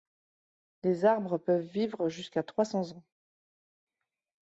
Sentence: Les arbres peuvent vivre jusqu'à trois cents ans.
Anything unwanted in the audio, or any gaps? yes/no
no